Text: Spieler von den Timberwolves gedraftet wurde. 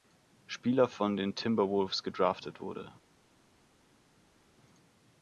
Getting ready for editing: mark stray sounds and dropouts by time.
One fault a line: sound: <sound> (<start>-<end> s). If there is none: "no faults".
no faults